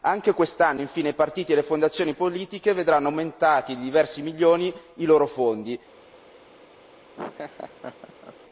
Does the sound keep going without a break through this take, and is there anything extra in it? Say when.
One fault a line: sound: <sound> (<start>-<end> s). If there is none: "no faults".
sound: laugh (7.2-8.4 s)